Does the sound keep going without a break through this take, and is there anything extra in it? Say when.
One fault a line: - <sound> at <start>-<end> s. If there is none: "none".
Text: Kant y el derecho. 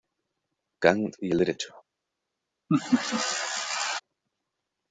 - laugh at 2.7-4.0 s